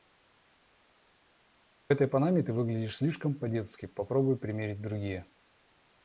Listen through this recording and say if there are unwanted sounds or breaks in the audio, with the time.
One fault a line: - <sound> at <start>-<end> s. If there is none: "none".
none